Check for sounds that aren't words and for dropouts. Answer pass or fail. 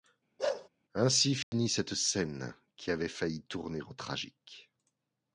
fail